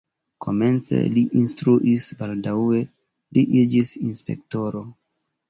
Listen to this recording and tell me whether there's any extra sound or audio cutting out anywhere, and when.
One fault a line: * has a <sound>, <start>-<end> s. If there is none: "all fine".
all fine